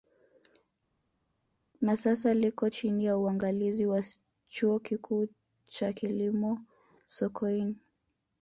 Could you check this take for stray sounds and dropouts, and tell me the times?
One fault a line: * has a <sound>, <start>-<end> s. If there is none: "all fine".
all fine